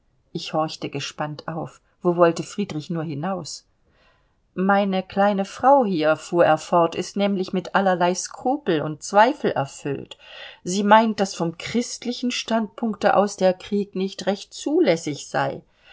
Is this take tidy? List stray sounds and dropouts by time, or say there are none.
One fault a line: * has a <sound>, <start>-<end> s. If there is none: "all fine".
all fine